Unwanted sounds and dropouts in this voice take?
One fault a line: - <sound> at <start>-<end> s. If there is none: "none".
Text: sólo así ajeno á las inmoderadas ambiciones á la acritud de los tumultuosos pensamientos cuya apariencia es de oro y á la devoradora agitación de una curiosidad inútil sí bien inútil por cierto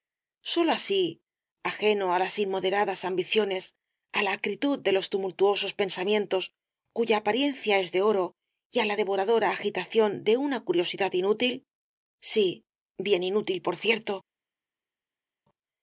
none